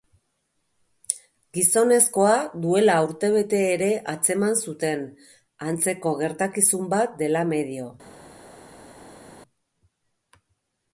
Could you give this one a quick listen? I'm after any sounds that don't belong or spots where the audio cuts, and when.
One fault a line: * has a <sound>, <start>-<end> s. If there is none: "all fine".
all fine